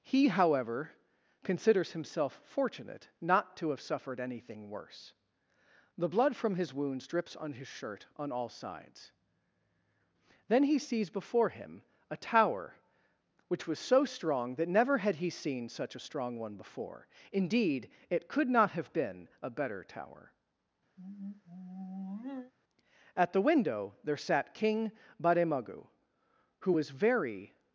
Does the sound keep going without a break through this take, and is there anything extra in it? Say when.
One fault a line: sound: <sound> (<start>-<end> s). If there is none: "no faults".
sound: sigh (21.0-22.5 s)